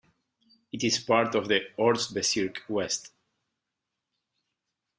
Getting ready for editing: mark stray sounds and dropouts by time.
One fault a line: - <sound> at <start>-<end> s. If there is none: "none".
none